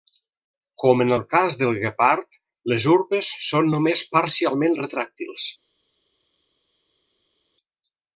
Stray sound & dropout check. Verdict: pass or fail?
pass